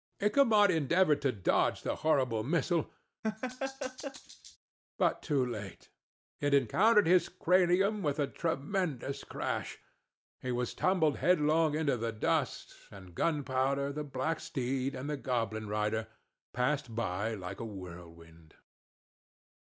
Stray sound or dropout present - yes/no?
yes